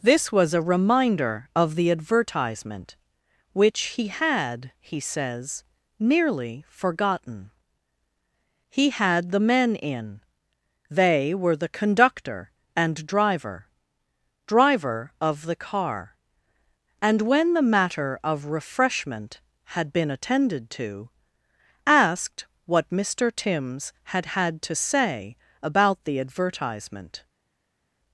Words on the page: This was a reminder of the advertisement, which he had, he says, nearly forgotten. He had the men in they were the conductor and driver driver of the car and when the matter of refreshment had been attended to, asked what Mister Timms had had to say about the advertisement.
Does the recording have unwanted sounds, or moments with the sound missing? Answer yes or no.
no